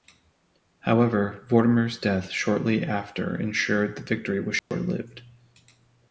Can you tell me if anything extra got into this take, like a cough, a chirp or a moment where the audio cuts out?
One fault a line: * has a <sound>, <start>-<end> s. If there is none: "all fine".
* has a dropout, 4.6-4.7 s